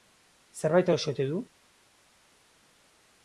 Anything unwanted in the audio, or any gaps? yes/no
no